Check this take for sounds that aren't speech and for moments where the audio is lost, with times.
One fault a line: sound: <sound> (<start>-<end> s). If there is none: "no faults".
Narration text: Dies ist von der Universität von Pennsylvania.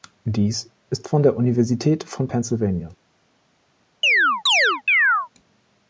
sound: chirp (4.0-5.3 s)